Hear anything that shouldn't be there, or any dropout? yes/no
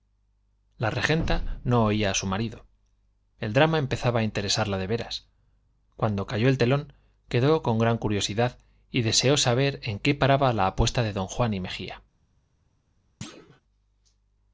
yes